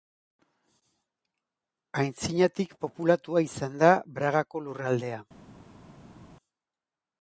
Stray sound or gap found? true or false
false